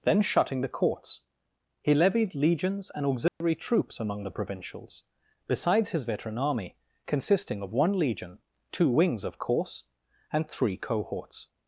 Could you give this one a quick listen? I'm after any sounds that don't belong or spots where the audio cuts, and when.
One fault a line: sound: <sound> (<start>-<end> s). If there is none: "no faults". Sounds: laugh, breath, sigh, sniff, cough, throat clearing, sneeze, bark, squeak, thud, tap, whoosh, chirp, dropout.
sound: dropout (3.3-3.4 s)